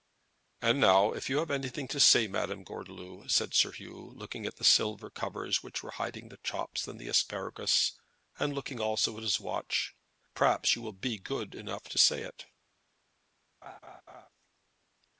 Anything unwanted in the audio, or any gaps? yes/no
yes